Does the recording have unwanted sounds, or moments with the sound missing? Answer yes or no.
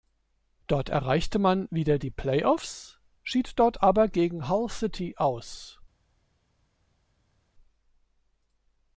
no